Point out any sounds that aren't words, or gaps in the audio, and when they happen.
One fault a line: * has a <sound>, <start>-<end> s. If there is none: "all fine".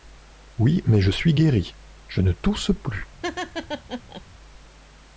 * has a laugh, 3.2-4.2 s